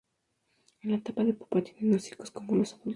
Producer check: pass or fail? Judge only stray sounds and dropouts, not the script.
pass